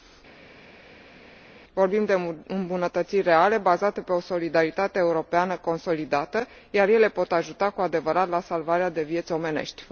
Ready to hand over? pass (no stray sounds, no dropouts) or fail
pass